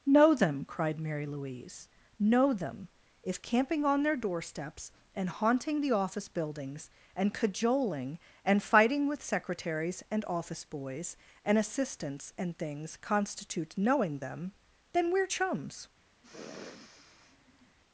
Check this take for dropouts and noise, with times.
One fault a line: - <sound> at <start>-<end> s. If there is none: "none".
- sniff at 16.2-17.8 s